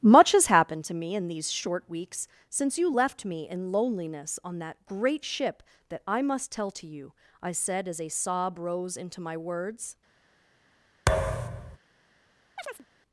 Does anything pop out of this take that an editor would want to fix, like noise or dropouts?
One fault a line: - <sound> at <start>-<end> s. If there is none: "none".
- thud at 11.1-11.8 s
- chirp at 12.6-12.9 s